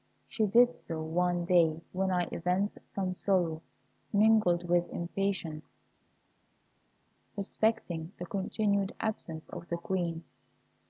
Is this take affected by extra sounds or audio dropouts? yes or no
no